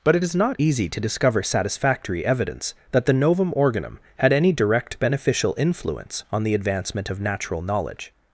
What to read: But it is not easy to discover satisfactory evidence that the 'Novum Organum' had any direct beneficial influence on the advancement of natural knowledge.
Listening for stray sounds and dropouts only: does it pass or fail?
pass